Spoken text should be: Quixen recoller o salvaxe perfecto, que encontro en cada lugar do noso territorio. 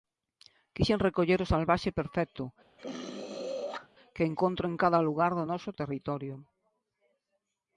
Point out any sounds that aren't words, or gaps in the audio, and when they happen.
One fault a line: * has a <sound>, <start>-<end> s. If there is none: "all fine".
* has a throat clearing, 2.8-3.9 s